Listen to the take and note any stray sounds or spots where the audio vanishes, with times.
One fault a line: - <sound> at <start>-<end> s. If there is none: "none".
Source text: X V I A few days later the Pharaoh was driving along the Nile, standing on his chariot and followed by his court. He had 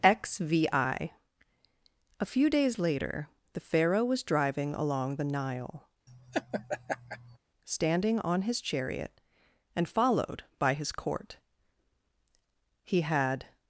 - laugh at 6.1-7.4 s